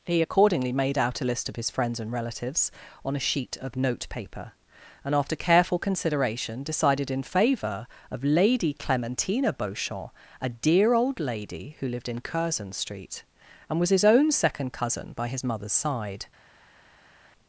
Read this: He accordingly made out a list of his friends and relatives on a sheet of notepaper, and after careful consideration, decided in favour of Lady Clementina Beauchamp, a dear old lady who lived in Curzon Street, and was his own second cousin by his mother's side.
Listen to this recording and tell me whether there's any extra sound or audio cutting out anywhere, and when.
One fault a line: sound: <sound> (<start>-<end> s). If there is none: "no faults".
no faults